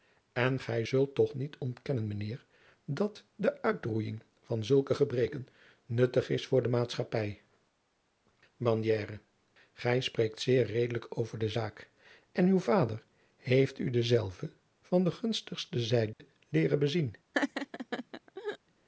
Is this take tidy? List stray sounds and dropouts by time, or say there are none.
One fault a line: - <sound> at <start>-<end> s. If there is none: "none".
- dropout at 16.1-16.2 s
- laugh at 17.3-18.6 s